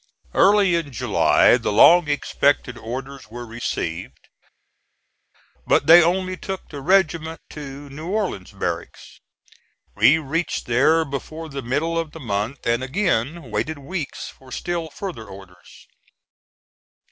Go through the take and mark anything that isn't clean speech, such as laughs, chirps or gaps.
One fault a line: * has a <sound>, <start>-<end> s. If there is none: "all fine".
all fine